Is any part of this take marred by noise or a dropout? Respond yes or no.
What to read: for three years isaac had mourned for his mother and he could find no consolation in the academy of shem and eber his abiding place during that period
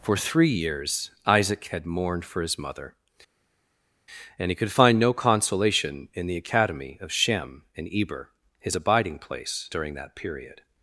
no